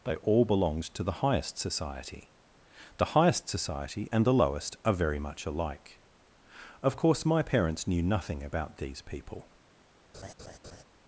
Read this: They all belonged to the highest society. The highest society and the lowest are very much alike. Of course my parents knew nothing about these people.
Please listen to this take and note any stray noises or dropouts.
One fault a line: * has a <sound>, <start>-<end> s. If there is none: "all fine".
* has a laugh, 10.1-10.8 s